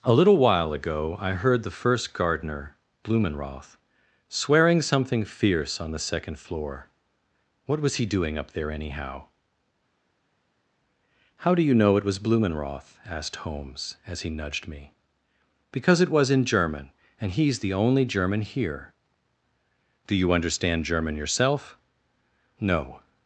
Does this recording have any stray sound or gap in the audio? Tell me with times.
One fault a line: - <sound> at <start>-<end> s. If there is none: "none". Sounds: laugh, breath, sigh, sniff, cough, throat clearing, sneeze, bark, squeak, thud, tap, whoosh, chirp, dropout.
none